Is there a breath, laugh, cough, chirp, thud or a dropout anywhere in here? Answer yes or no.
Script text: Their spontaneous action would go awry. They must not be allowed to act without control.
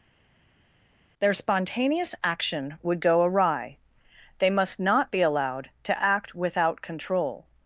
no